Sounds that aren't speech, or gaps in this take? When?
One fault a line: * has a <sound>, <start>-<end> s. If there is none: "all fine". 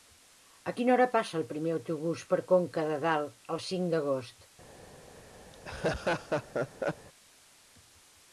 * has a laugh, 5.5-7.1 s